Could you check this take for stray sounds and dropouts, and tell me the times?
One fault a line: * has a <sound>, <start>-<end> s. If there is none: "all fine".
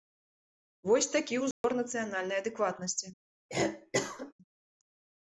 * has a dropout, 1.5-1.6 s
* has a cough, 3.5-4.3 s